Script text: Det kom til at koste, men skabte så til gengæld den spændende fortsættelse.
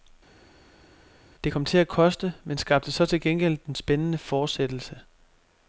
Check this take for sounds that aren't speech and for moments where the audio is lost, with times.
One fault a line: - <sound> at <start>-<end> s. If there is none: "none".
none